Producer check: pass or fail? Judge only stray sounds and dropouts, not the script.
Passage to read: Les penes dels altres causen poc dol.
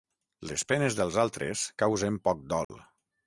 fail